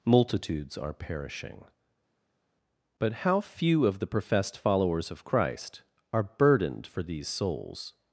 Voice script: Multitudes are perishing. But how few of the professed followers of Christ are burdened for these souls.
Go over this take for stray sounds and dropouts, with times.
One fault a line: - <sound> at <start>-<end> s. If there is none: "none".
none